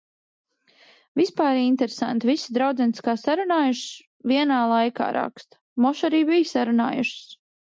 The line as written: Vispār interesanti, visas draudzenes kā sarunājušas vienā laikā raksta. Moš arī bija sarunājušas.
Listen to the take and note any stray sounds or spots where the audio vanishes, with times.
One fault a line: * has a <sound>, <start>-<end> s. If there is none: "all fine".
all fine